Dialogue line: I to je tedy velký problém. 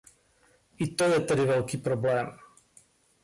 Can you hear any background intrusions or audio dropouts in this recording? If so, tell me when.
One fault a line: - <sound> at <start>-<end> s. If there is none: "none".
none